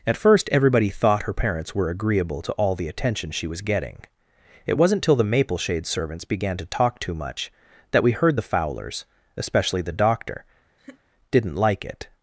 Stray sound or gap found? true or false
true